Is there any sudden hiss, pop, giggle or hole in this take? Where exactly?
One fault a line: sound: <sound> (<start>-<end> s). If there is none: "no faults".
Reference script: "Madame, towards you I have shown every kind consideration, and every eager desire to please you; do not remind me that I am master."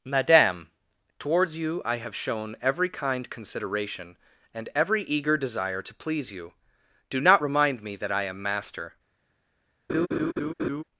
sound: laugh (9.9-10.8 s)